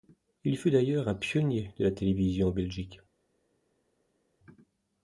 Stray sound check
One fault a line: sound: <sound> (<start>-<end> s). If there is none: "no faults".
no faults